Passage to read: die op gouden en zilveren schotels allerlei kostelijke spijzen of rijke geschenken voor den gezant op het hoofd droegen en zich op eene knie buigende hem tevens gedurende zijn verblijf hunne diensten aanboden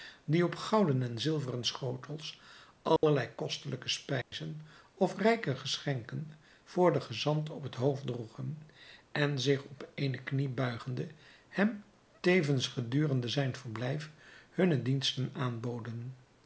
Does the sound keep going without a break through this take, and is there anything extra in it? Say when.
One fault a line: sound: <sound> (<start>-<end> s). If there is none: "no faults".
sound: dropout (3.0-3.0 s)
sound: dropout (4.2-4.3 s)